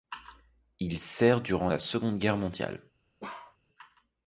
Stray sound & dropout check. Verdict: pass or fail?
fail